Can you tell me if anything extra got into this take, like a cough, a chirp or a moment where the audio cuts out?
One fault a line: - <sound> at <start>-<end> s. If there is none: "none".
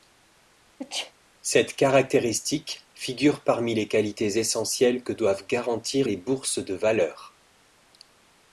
- sneeze at 0.8-1.1 s